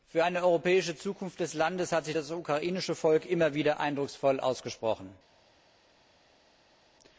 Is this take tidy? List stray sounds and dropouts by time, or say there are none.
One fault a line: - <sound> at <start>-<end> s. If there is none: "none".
none